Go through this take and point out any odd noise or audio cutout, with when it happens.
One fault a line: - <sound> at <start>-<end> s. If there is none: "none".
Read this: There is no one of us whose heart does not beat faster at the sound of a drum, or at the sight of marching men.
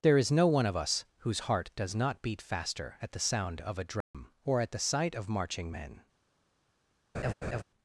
- dropout at 4.0-4.1 s
- laugh at 7.1-7.6 s